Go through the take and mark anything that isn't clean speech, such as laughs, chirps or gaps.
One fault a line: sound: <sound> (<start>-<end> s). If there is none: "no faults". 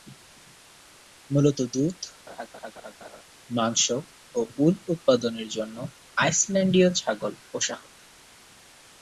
sound: laugh (2.3-3.2 s)